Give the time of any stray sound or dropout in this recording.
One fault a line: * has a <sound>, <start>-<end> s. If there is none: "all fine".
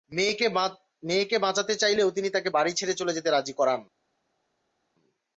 all fine